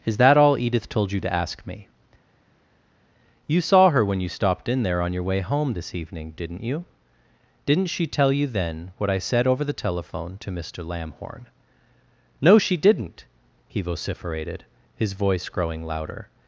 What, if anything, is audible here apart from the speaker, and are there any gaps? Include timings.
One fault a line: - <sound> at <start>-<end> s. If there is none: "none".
none